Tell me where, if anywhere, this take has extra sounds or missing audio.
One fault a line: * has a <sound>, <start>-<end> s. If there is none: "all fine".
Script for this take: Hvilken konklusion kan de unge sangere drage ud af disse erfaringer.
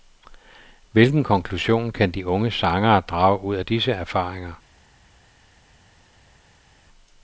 all fine